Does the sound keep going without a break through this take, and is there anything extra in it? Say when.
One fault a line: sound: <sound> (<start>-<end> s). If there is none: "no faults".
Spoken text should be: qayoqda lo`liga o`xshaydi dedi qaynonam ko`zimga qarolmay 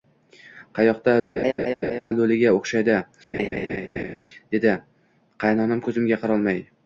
sound: laugh (1.4-2.0 s)
sound: laugh (3.3-4.2 s)